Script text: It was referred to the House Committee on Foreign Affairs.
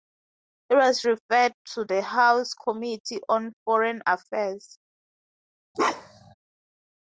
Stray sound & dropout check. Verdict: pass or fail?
fail